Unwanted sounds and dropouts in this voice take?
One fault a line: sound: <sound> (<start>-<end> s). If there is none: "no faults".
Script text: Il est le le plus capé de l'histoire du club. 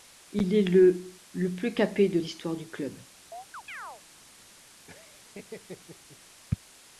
sound: chirp (3.3-4.0 s)
sound: laugh (4.9-6.2 s)